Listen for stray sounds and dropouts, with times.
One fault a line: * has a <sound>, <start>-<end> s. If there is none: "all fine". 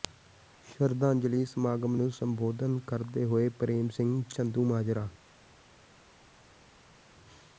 all fine